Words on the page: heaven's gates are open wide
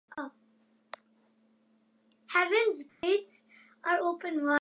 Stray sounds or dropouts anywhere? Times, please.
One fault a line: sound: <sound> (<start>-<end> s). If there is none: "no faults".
sound: dropout (2.9-3.0 s)